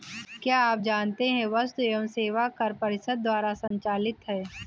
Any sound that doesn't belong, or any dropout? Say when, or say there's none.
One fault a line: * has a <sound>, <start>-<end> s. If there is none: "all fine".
* has a dropout, 3.7-3.7 s